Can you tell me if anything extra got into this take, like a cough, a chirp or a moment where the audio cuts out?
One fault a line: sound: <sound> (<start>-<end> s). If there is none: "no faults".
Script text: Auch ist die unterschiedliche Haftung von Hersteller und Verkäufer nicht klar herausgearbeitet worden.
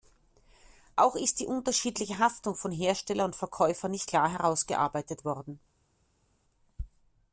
no faults